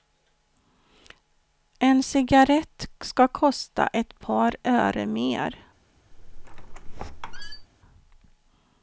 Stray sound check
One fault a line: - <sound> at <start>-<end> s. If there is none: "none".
- squeak at 6.1-7.7 s